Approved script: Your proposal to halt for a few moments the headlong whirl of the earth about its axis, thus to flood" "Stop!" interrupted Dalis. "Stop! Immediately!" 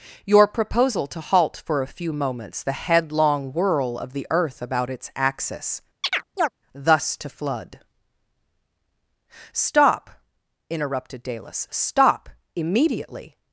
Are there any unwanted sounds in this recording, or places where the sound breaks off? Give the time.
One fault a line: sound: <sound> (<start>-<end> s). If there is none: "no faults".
sound: chirp (6.0-6.5 s)